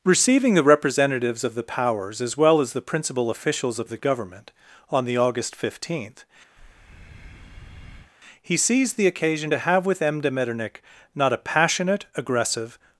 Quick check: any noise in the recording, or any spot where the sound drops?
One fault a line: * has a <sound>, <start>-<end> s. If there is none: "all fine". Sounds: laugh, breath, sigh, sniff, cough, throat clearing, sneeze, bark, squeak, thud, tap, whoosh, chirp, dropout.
* has a breath, 6.6-8.1 s